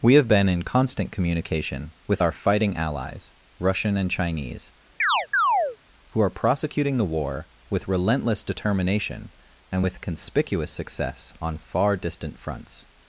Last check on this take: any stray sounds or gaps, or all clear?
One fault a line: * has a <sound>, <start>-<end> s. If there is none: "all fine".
* has a chirp, 5.0-5.8 s